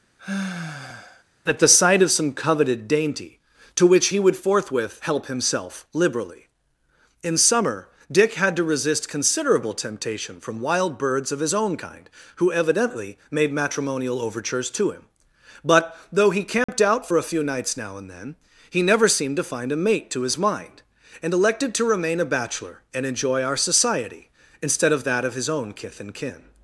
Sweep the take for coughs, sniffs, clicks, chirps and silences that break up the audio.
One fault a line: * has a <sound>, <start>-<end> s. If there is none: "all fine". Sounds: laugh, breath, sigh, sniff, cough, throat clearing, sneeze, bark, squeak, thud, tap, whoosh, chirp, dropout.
* has a sigh, 0.2-1.2 s
* has a dropout, 16.6-16.7 s